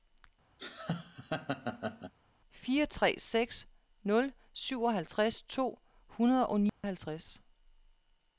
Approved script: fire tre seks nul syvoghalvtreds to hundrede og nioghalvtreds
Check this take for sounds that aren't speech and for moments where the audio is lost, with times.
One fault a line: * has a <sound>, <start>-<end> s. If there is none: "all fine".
* has a laugh, 0.6-2.1 s
* has a dropout, 6.7-6.8 s